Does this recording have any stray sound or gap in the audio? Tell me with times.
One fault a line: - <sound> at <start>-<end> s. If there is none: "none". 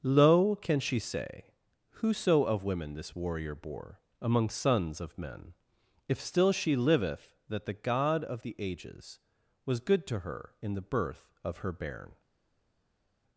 none